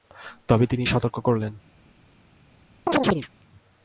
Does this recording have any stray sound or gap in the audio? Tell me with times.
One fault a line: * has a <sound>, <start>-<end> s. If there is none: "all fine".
* has a chirp, 2.9-3.3 s